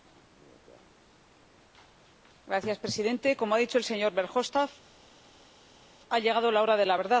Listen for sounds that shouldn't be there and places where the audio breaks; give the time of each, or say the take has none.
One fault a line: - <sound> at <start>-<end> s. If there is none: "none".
none